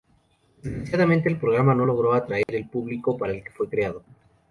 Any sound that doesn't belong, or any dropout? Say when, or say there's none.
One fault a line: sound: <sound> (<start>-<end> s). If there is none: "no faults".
sound: dropout (2.4-2.5 s)